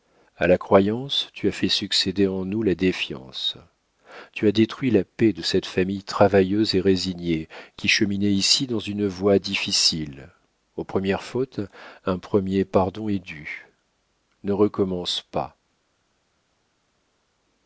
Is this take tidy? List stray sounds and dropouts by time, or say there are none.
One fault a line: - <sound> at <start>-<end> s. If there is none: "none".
none